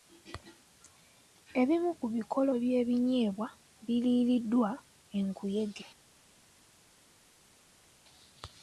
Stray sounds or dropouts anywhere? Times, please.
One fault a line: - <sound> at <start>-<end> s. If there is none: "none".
none